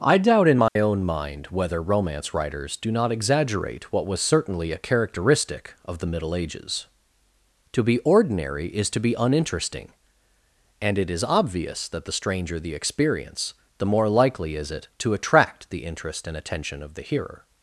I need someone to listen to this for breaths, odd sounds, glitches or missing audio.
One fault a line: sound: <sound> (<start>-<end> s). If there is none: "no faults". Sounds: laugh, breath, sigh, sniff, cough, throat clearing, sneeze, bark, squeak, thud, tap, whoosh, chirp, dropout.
sound: dropout (0.7-0.8 s)